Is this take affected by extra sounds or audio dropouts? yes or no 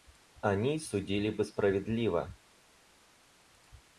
no